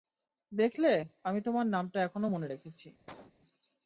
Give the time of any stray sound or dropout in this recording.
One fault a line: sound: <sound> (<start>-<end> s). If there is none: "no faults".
sound: cough (3.1-3.3 s)